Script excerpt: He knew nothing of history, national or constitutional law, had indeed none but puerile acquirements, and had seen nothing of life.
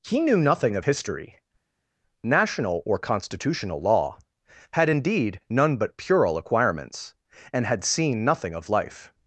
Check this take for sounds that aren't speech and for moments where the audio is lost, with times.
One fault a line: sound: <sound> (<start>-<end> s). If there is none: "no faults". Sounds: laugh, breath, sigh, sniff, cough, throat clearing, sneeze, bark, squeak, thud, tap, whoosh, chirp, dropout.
no faults